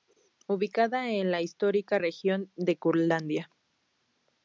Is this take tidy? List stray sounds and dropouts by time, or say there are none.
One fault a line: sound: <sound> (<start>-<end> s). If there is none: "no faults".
no faults